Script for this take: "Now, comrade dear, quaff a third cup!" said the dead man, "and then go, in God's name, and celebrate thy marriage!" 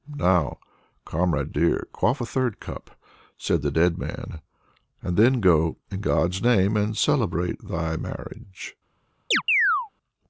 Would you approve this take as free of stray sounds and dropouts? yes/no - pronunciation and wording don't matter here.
no